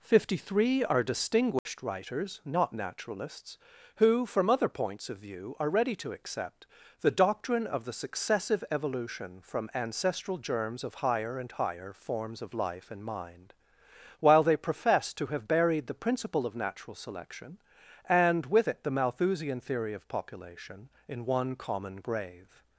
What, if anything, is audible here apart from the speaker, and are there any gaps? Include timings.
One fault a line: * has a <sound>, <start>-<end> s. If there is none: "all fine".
* has a dropout, 1.6-1.7 s